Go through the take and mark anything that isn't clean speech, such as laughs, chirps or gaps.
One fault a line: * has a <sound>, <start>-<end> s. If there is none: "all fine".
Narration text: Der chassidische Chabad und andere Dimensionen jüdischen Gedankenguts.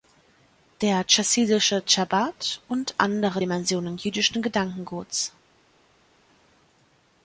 all fine